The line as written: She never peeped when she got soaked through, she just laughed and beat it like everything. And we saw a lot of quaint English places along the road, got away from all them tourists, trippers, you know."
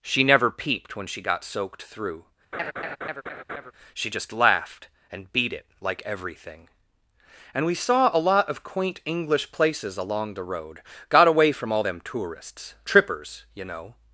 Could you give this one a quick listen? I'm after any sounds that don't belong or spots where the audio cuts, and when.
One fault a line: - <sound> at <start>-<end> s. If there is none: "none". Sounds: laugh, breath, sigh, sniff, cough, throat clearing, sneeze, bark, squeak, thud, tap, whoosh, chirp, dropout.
- laugh at 2.5-3.7 s